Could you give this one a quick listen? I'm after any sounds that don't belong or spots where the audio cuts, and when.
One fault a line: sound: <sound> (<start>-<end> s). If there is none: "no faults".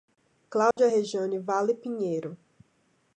sound: dropout (0.7-0.8 s)